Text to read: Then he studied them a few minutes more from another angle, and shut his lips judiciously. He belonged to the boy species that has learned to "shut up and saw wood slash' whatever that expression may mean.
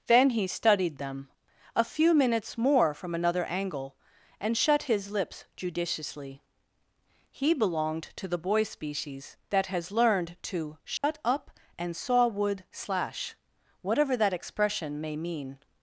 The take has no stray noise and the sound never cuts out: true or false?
false